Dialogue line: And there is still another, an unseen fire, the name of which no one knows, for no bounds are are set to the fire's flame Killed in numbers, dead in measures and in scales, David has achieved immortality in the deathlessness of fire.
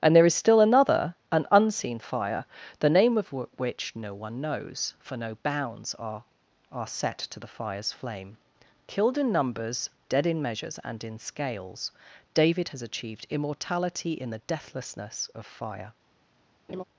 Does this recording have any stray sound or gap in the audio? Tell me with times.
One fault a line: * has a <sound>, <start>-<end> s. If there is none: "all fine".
* has a laugh, 16.7-16.8 s